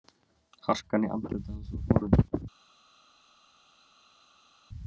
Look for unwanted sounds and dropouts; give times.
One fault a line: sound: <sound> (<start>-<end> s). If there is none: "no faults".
no faults